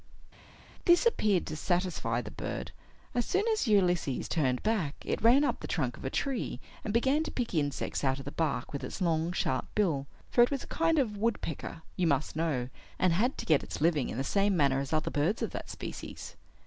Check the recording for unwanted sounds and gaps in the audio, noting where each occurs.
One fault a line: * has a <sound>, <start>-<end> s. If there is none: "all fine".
all fine